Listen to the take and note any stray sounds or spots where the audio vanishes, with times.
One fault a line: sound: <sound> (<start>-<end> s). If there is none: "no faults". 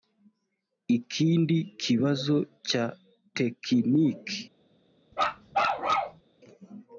sound: bark (5.1-6.2 s)